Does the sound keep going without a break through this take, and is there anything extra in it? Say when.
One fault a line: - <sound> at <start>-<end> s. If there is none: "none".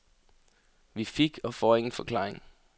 none